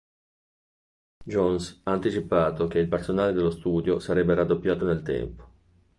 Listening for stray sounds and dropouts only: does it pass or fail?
pass